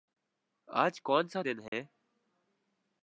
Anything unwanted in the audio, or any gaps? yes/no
yes